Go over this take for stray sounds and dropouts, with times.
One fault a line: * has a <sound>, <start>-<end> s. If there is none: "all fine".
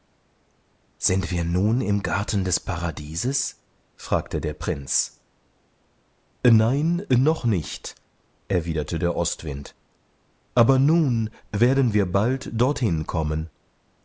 all fine